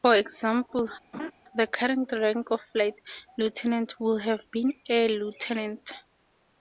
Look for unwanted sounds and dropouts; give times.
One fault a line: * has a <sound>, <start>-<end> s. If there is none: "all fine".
* has a laugh, 1.1-1.3 s